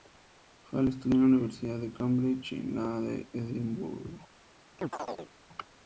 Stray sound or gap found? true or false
true